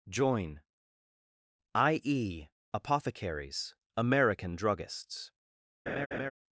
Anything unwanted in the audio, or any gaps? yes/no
yes